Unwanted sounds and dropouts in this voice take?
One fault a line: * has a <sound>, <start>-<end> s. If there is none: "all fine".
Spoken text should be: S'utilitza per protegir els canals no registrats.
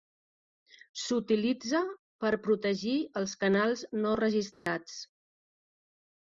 * has a dropout, 4.5-4.7 s